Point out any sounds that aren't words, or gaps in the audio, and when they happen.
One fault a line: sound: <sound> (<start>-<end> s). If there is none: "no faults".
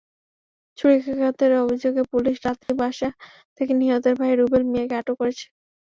sound: dropout (2.6-2.7 s)